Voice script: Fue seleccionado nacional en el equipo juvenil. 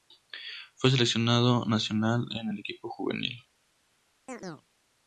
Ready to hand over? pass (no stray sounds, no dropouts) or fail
fail